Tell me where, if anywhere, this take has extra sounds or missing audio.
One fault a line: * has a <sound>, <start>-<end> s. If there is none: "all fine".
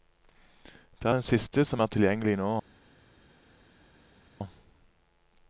all fine